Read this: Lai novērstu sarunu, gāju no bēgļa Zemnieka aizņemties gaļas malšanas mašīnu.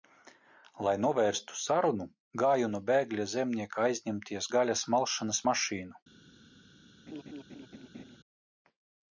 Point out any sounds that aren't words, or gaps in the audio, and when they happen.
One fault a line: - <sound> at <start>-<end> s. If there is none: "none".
- laugh at 7.1-8.2 s